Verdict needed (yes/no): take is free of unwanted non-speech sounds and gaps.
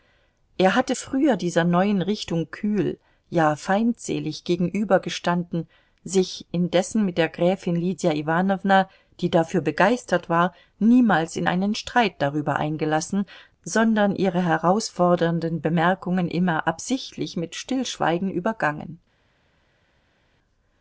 yes